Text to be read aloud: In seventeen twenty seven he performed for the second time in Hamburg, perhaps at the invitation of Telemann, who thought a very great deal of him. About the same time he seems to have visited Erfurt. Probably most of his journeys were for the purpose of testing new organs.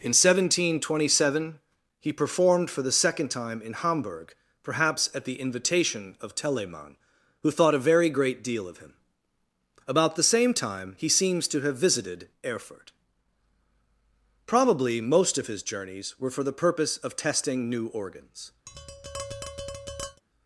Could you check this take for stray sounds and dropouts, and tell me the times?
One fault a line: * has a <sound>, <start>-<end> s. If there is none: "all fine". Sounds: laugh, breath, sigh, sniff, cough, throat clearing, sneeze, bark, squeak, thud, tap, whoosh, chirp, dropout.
* has a tap, 18.7-20.2 s